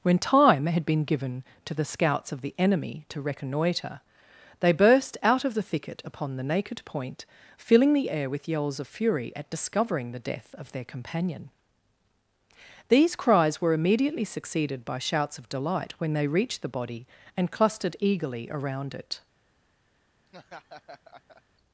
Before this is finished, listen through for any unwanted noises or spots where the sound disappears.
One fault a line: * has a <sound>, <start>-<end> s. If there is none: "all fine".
* has a laugh, 20.3-21.4 s